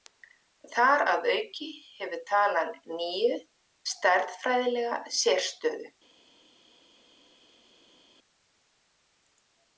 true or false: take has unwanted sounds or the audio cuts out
false